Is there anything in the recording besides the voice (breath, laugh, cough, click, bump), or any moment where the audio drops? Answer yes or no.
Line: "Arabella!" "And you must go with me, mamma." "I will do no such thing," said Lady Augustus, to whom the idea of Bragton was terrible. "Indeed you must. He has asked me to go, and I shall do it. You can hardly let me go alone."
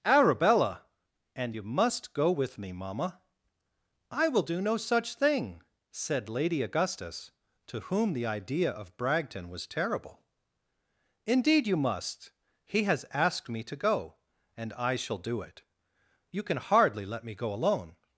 no